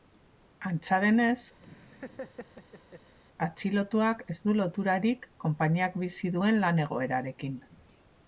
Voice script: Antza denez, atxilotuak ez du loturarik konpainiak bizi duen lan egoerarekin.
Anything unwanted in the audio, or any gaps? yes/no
yes